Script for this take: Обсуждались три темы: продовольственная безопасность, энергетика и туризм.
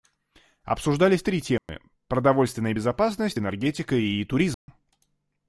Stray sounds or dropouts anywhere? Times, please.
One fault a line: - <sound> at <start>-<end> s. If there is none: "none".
- dropout at 1.6-1.7 s
- dropout at 4.5-4.7 s